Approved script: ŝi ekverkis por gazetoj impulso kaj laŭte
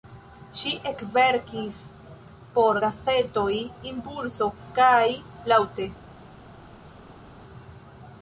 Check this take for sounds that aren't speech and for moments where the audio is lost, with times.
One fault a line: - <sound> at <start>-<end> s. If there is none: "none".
none